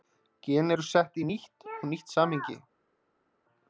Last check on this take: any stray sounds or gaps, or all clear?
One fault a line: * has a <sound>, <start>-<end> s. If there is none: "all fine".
all fine